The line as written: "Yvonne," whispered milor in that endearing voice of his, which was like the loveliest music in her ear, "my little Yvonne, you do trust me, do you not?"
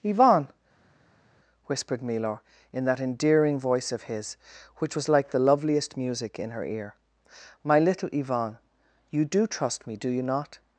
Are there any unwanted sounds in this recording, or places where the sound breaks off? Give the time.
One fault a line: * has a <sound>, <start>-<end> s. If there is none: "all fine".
all fine